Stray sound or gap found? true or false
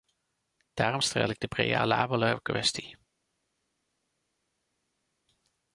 false